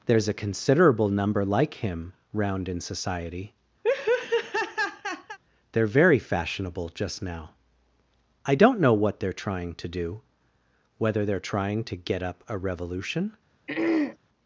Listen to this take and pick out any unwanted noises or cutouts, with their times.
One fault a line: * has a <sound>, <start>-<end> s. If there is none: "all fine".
* has a laugh, 3.8-5.4 s
* has a throat clearing, 13.7-14.2 s